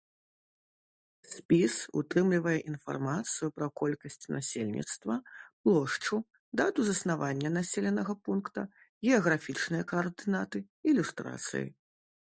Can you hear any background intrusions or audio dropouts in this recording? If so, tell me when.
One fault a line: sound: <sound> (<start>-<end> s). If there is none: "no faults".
no faults